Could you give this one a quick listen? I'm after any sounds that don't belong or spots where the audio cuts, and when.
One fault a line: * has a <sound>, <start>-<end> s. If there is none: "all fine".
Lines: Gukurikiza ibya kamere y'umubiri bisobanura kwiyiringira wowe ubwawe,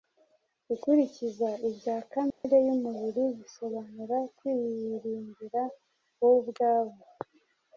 * has a dropout, 2.3-2.4 s